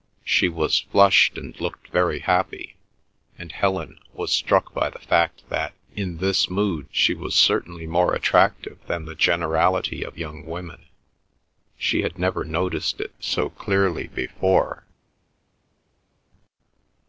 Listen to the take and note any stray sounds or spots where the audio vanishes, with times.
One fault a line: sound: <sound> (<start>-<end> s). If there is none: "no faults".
no faults